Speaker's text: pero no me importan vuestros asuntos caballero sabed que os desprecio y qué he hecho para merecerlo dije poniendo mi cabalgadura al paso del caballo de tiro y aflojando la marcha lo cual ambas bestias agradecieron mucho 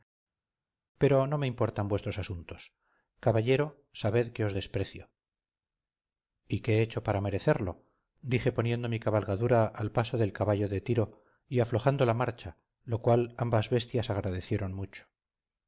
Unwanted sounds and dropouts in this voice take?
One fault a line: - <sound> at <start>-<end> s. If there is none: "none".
none